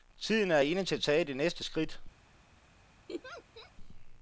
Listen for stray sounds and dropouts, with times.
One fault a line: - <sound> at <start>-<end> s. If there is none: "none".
- laugh at 3.1-3.7 s